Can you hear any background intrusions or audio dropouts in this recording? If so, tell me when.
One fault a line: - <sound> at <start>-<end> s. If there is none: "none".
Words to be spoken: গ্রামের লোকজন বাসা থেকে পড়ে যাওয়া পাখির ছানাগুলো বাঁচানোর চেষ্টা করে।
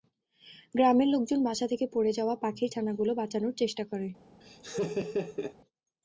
- laugh at 4.4-5.6 s